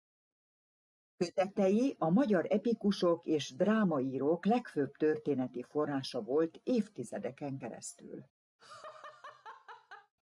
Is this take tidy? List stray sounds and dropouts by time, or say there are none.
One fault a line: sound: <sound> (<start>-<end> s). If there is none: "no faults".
sound: laugh (8.6-10.1 s)